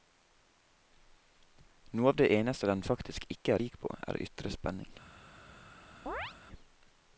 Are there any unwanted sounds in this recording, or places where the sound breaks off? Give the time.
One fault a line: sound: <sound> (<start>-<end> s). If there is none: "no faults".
sound: chirp (6.1-6.3 s)